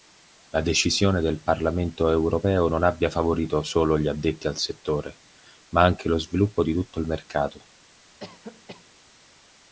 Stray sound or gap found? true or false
true